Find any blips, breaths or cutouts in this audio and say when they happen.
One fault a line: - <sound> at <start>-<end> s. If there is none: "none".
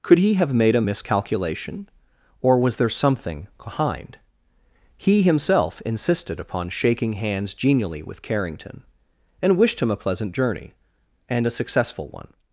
none